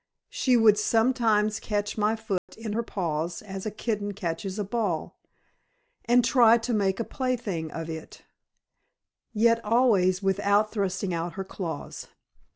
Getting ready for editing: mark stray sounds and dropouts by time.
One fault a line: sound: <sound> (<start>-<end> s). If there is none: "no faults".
sound: dropout (2.4-2.5 s)